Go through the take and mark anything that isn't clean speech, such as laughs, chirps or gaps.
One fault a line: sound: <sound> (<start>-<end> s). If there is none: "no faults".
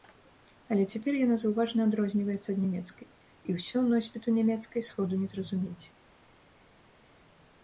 no faults